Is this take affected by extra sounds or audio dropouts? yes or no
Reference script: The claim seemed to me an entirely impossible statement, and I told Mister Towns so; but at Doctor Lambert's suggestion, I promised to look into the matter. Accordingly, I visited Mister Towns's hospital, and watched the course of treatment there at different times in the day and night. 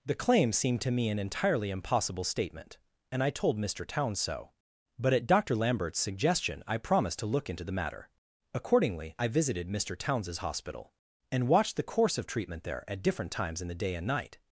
no